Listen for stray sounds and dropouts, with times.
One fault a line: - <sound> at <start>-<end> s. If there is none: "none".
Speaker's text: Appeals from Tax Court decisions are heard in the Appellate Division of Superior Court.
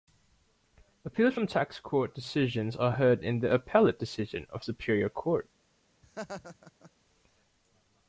- laugh at 6.0-6.9 s